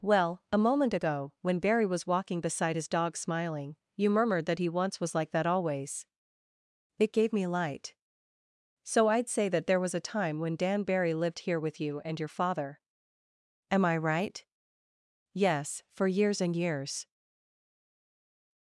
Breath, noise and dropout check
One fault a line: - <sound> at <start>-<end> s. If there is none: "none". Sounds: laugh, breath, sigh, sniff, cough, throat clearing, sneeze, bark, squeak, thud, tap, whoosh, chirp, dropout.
none